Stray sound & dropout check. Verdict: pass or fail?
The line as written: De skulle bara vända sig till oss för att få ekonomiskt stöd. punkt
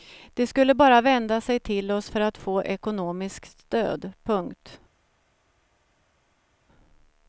pass